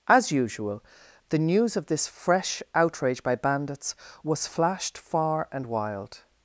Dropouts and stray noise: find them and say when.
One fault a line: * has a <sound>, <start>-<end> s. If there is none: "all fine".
all fine